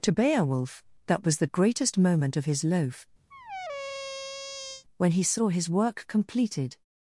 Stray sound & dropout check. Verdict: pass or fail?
fail